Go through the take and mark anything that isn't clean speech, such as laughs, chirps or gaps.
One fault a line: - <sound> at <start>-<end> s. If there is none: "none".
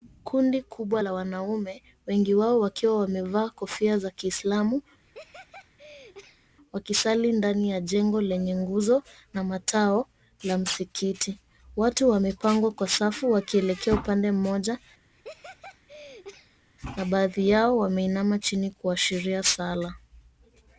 - laugh at 5.0-6.6 s
- laugh at 15.1-16.7 s